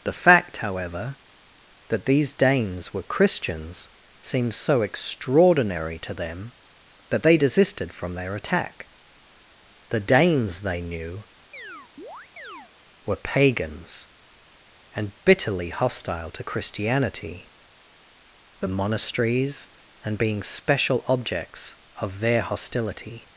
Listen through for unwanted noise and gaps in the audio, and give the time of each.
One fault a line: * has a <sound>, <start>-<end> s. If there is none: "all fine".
* has a chirp, 11.5-12.7 s